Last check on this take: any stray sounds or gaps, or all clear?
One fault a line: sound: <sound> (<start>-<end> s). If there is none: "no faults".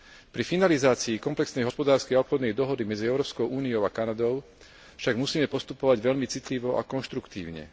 no faults